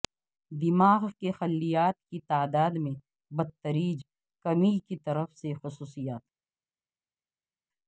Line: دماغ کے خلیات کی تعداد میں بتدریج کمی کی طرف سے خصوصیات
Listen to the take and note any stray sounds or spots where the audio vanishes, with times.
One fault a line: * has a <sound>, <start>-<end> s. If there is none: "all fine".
all fine